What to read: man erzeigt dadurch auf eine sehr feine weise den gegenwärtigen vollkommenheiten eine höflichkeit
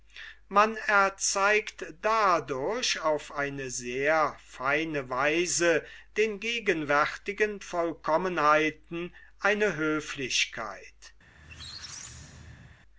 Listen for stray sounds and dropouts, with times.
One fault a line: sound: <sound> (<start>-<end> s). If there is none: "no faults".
sound: squeak (11.3-12.8 s)